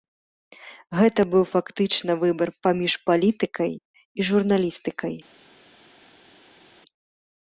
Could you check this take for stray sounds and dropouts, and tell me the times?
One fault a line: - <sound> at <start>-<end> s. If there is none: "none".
none